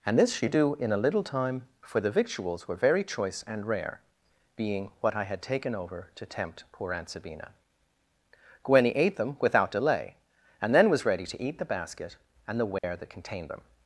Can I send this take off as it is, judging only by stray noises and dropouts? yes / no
no